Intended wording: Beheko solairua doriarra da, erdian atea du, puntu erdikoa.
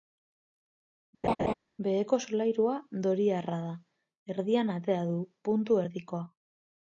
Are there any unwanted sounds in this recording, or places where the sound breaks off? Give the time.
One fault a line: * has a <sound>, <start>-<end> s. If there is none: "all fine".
* has a laugh, 1.2-1.5 s